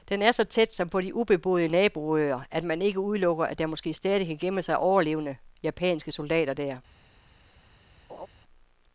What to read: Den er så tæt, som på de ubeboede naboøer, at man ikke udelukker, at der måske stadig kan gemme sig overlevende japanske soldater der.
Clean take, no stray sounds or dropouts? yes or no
no